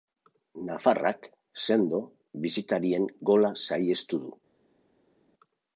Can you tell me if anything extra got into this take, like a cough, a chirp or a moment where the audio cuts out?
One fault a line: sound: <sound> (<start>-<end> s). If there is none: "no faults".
no faults